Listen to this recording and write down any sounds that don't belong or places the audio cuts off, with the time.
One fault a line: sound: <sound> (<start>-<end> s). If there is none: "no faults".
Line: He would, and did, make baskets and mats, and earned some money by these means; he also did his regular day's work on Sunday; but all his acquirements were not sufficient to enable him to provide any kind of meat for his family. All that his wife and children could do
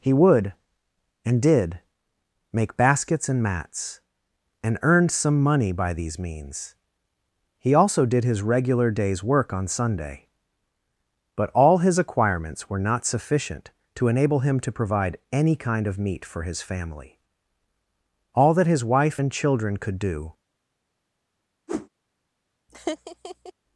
sound: whoosh (21.7-21.9 s)
sound: laugh (22.7-23.5 s)